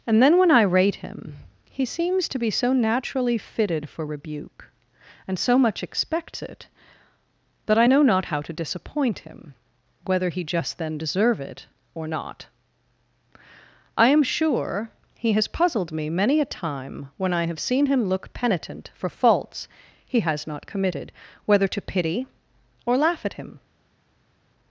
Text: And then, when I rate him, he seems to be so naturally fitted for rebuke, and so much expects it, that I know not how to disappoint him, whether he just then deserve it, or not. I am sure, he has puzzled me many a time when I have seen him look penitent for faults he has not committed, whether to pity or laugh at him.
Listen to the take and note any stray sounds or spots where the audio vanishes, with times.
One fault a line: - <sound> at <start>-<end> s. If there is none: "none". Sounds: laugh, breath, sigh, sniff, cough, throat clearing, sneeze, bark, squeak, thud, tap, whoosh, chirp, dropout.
none